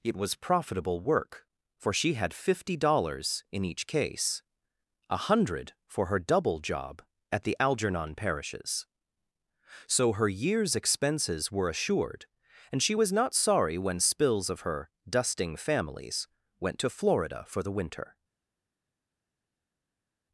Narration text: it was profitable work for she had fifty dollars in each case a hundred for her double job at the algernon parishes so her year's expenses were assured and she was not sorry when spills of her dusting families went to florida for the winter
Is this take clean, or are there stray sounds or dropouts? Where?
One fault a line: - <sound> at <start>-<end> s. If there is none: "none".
none